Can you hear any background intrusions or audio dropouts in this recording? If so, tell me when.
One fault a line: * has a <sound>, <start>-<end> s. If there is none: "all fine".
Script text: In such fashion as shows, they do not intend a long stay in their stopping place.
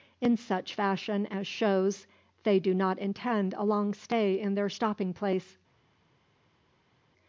all fine